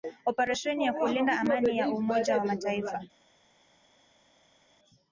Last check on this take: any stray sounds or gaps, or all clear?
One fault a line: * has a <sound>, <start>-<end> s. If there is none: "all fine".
all fine